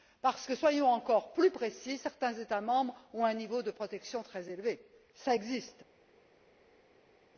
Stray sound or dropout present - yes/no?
no